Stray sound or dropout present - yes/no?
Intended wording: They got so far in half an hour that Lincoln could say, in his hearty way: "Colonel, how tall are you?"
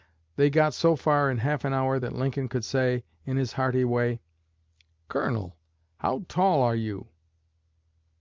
no